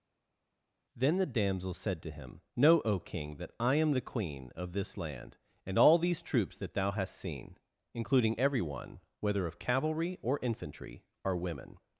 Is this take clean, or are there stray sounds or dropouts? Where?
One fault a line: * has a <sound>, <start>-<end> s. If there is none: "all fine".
all fine